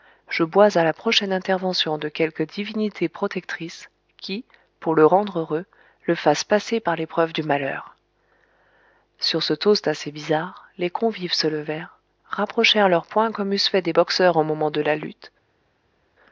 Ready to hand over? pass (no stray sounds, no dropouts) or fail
pass